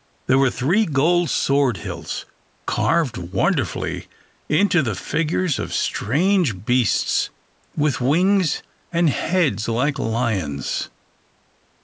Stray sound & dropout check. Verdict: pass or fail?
pass